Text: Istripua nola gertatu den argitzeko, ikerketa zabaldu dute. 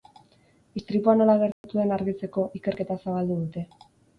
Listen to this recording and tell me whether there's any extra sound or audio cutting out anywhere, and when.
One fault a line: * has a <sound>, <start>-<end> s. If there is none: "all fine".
* has a dropout, 1.5-1.6 s